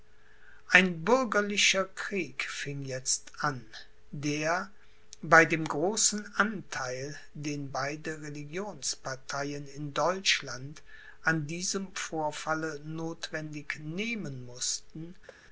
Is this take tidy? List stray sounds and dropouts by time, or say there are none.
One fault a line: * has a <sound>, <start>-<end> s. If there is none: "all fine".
* has a thud, 15.3-15.4 s